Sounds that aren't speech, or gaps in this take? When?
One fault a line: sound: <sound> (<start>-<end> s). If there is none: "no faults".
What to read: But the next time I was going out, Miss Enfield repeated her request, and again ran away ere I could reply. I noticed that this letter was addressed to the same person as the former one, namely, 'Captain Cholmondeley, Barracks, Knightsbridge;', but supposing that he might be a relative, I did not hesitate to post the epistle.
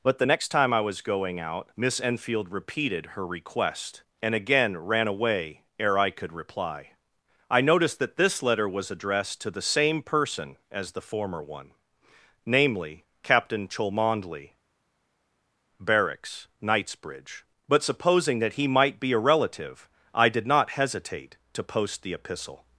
no faults